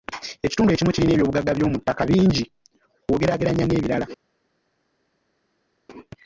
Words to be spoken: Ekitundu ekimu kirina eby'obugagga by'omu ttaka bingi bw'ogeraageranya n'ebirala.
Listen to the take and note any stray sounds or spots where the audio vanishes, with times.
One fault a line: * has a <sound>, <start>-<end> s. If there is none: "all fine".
all fine